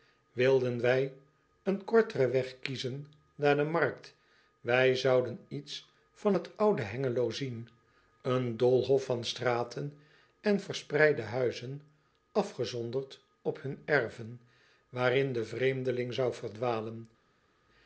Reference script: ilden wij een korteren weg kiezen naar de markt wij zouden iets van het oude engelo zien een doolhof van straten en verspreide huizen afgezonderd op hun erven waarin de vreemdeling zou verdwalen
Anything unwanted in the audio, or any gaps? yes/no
no